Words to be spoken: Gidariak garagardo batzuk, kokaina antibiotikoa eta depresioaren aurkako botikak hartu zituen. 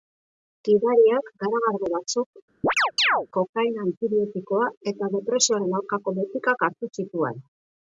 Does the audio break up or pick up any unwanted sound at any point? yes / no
yes